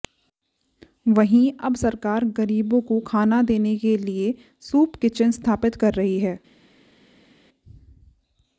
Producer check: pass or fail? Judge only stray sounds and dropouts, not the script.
pass